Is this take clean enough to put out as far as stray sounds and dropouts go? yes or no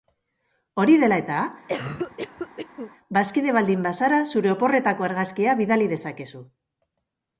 no